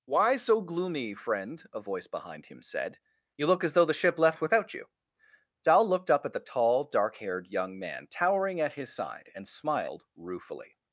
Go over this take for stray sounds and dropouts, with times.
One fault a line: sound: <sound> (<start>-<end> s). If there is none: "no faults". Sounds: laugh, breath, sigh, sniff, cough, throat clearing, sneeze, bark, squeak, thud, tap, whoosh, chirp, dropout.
no faults